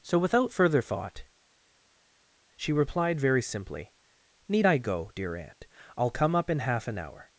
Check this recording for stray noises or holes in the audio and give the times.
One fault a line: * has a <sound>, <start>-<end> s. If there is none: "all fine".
all fine